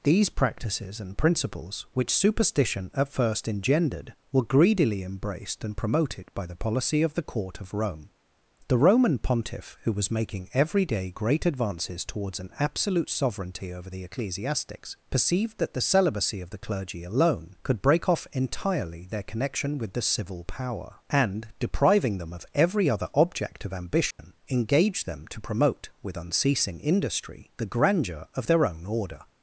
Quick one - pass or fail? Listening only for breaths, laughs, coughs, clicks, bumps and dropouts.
fail